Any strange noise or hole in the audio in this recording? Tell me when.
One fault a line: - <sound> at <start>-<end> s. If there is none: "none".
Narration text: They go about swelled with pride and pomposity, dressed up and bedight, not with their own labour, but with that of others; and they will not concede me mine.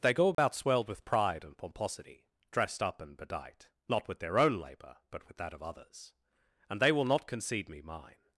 - dropout at 0.3-0.4 s